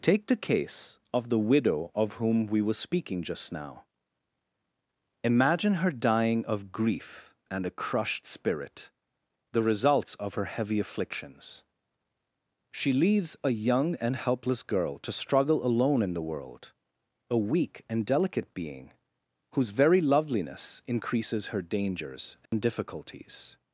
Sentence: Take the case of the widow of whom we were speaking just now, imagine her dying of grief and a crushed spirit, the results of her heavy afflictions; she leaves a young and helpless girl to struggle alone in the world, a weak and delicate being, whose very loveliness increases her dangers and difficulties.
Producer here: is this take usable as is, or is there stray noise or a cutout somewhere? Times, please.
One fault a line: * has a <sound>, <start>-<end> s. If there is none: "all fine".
* has a dropout, 22.5-22.5 s